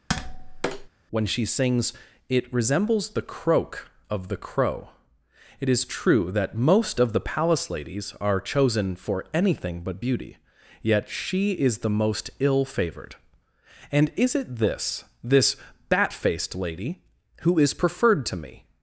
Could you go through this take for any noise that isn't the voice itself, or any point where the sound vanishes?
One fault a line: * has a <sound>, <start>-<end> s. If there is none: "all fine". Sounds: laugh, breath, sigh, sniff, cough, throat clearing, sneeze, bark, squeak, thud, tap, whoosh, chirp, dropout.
* has a tap, 0.1-0.9 s